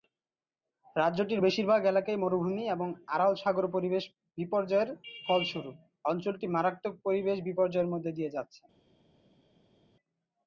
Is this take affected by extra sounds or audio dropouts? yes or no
no